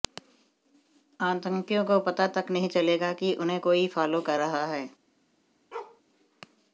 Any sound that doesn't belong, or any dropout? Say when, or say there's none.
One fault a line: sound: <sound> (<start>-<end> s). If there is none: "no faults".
sound: bark (5.7-6.0 s)